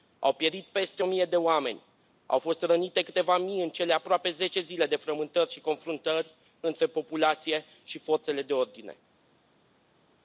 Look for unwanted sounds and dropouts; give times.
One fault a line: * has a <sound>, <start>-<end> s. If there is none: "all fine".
all fine